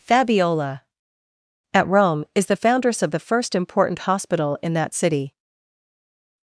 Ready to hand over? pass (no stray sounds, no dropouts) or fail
pass